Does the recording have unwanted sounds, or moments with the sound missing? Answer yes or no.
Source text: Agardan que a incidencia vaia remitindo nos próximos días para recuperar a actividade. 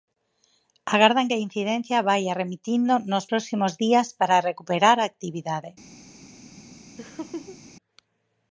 yes